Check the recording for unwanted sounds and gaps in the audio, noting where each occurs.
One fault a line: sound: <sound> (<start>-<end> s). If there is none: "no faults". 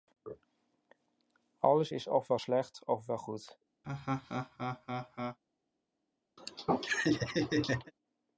sound: laugh (3.8-5.4 s)
sound: laugh (6.4-7.9 s)